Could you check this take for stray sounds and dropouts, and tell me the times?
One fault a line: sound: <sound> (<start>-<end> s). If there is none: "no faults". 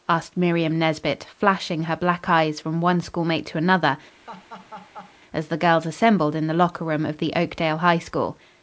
sound: laugh (4.3-5.2 s)